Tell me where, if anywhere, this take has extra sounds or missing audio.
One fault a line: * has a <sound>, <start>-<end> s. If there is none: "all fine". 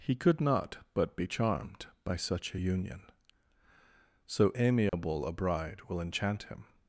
* has a dropout, 4.9-4.9 s